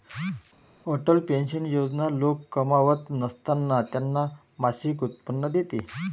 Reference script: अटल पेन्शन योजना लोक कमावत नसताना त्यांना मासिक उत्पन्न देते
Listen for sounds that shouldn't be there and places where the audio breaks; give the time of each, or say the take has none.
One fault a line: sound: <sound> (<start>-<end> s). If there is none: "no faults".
no faults